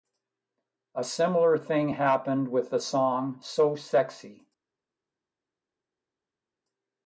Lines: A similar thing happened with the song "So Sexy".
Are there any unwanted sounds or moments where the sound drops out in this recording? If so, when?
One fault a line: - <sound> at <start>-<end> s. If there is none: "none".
none